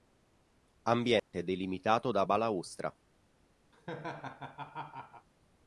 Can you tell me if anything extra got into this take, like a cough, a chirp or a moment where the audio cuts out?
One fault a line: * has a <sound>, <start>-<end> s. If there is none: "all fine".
* has a dropout, 1.2-1.3 s
* has a laugh, 3.7-5.3 s